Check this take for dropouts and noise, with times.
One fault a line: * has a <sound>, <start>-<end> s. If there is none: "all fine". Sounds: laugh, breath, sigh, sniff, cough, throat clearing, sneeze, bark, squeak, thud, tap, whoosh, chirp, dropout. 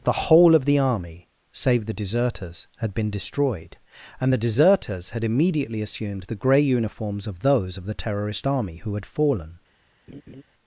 * has a laugh, 10.1-10.4 s